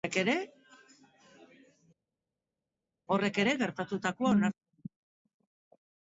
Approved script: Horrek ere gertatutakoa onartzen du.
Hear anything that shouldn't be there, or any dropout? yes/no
no